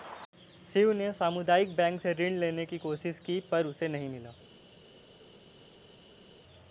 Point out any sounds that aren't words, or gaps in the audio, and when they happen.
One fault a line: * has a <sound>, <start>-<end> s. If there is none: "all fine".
all fine